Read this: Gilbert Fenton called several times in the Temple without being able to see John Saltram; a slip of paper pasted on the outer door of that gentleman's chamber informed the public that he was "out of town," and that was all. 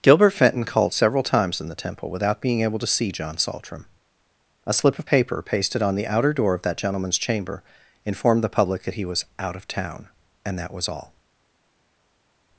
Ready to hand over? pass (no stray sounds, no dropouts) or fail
pass